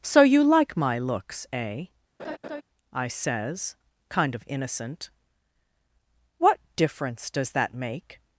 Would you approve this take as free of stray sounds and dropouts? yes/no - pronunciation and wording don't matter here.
no